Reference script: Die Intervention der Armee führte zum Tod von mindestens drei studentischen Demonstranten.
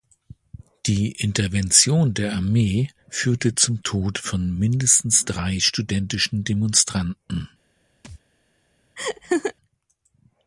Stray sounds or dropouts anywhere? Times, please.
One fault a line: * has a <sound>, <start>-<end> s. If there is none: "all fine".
* has a thud, 8.0-8.2 s
* has a laugh, 9.0-9.5 s